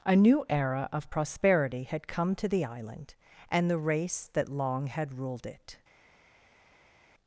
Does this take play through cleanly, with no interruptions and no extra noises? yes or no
yes